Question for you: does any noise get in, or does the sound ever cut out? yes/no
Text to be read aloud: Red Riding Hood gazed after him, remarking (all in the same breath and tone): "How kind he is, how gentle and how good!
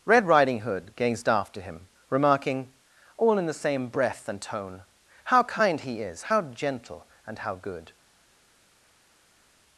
no